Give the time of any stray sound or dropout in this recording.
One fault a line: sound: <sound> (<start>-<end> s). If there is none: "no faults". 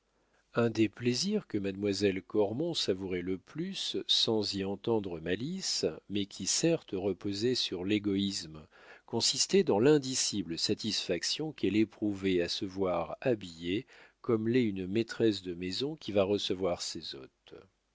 no faults